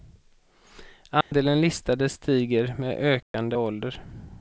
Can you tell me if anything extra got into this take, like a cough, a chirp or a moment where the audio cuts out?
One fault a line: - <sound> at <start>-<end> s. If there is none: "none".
- dropout at 1.2-1.3 s
- dropout at 3.2-3.3 s